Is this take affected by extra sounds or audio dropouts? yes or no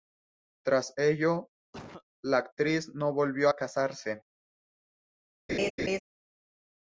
yes